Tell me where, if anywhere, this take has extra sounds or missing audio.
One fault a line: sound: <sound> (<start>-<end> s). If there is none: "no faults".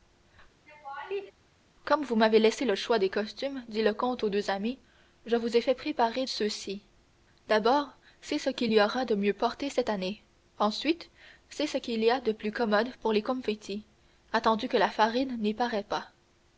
sound: laugh (0.7-1.3 s)